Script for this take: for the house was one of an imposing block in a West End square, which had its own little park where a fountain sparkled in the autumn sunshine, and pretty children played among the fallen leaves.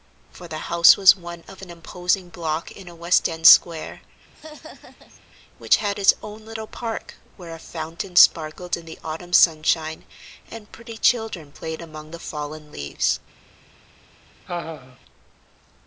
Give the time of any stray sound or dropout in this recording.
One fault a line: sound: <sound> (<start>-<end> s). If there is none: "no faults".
sound: laugh (4.3-5.2 s)
sound: laugh (14.5-15.0 s)